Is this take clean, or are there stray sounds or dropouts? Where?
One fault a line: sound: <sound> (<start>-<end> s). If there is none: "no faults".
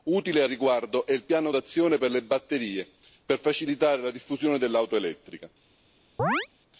sound: chirp (6.2-6.5 s)